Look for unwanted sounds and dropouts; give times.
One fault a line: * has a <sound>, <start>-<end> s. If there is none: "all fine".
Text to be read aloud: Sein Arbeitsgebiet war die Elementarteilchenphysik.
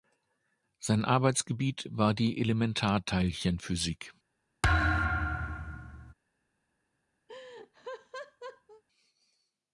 * has a thud, 4.6-6.1 s
* has a laugh, 7.3-8.8 s